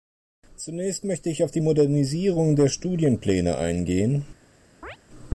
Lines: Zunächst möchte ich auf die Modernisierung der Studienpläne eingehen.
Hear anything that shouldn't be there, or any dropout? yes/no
yes